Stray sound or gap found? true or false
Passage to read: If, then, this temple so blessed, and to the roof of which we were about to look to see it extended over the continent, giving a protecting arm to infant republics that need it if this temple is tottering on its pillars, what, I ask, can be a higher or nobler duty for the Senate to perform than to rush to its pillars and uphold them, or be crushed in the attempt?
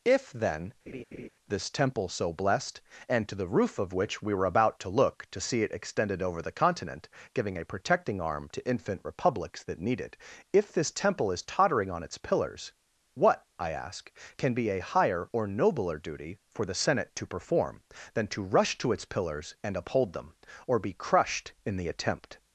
true